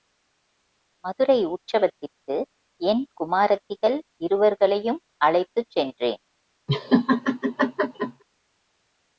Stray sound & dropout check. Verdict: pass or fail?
fail